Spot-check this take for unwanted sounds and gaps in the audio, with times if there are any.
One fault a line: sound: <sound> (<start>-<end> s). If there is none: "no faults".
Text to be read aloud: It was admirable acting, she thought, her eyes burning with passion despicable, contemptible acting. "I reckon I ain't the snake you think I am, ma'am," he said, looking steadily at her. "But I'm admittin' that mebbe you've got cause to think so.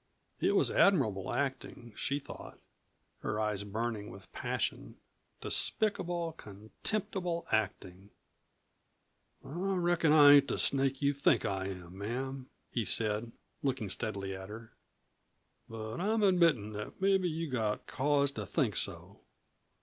no faults